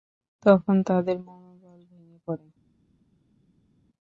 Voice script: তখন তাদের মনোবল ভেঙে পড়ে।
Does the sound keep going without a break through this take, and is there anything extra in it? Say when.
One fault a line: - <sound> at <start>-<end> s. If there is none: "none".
none